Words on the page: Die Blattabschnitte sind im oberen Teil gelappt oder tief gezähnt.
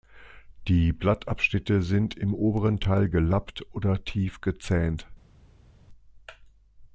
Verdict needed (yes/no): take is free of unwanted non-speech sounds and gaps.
yes